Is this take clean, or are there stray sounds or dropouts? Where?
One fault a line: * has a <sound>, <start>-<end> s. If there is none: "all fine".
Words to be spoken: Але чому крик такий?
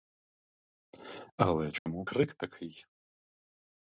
* has a dropout, 1.8-1.9 s